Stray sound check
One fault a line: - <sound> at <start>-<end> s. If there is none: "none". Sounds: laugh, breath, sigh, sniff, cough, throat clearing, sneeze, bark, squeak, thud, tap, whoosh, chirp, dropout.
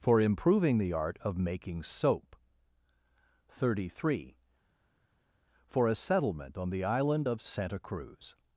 none